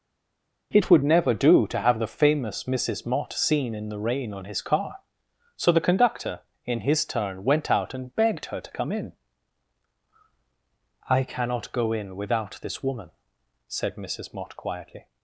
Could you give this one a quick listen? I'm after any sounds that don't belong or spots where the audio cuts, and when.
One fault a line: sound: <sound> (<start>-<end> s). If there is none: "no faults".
no faults